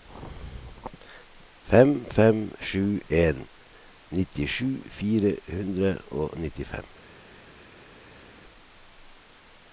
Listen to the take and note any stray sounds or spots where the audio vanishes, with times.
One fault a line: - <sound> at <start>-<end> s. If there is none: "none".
none